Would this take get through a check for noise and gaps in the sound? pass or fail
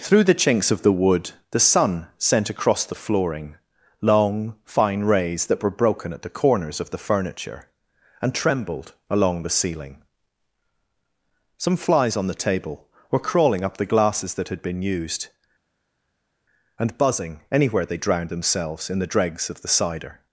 pass